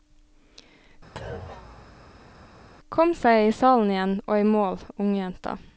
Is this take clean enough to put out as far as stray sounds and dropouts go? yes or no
no